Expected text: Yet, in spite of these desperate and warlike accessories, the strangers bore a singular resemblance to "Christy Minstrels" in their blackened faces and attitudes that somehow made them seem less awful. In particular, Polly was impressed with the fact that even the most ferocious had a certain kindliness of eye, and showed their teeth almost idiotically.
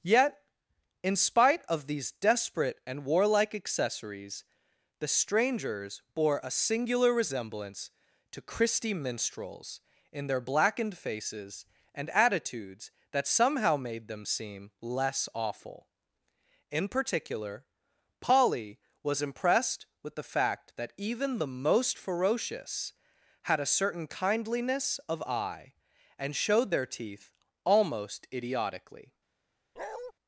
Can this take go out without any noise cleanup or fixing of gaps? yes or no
no